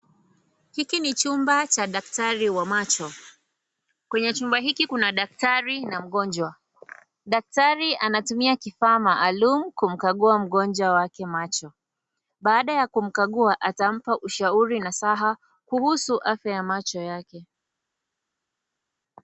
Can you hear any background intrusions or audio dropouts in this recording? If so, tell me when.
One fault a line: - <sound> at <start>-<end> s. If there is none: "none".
none